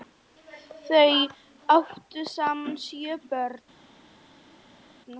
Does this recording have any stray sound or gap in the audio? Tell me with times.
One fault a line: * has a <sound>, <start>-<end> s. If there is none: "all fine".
all fine